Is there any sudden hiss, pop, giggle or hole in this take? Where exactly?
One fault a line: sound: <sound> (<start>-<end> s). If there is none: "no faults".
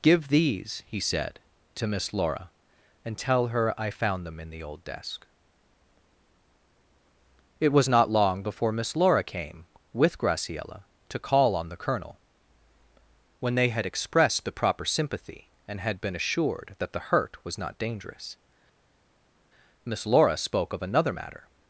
no faults